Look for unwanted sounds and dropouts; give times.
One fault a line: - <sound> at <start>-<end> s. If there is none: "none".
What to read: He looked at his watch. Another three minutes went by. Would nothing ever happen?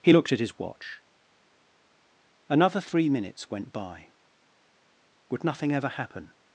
none